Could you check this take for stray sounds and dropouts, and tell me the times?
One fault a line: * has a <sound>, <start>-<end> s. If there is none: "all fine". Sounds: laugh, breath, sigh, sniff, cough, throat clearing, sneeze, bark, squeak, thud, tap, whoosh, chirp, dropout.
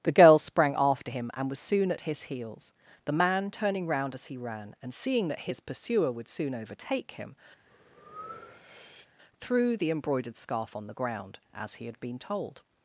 * has a breath, 7.7-9.1 s